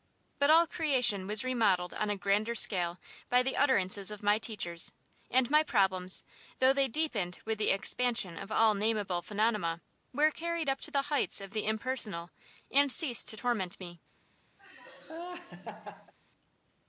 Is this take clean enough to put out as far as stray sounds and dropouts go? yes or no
no